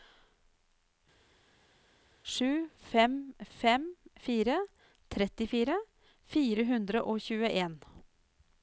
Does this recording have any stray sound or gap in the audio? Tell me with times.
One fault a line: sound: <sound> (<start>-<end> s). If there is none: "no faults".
no faults